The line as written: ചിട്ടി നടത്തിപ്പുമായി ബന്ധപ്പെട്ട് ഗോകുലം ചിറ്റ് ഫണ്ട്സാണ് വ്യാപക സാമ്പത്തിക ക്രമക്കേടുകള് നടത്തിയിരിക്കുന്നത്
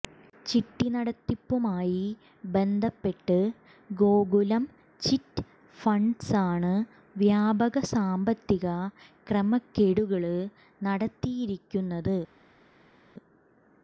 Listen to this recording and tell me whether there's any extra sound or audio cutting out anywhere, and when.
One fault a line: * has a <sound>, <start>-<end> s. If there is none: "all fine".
all fine